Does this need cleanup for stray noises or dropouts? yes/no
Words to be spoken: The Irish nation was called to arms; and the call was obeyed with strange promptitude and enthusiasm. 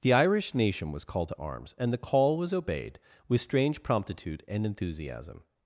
no